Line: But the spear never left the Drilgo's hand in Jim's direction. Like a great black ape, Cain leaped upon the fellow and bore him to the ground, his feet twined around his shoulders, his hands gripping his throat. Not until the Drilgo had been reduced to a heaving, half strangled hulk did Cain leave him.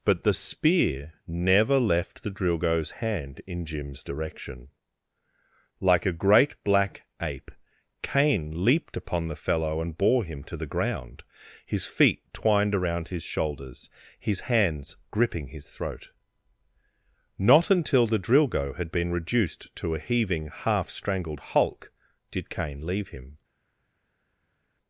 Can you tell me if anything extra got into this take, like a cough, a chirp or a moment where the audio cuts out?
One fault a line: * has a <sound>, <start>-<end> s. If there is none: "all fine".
all fine